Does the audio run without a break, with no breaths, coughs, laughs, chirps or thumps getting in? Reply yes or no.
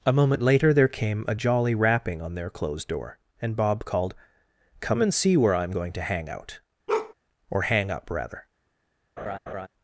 no